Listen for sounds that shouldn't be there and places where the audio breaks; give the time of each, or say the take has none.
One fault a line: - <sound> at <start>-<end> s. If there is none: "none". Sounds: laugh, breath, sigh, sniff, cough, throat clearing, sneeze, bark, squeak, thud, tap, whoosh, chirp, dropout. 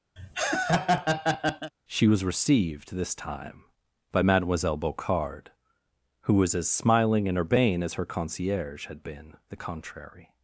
- laugh at 0.2-1.7 s